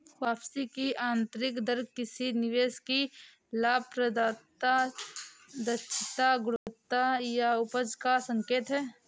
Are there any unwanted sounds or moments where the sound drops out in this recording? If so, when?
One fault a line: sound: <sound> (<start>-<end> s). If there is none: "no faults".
sound: dropout (6.6-6.7 s)